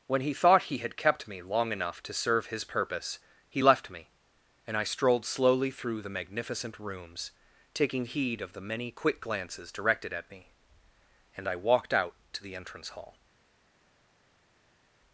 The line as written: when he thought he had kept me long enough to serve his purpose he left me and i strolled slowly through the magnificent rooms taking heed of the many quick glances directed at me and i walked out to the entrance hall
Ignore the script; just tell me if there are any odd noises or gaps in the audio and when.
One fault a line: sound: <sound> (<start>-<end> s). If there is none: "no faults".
no faults